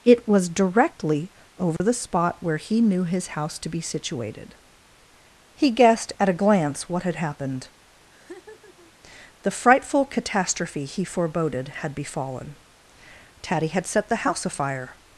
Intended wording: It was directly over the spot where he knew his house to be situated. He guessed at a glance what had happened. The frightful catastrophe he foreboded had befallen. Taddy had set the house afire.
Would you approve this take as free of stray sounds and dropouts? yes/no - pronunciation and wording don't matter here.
no